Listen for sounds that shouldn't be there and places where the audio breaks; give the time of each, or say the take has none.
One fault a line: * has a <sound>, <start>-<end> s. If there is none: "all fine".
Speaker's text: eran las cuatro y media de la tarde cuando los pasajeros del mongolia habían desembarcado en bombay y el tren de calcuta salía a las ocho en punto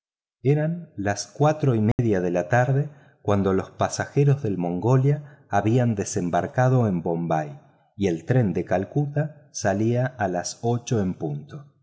* has a dropout, 1.9-2.0 s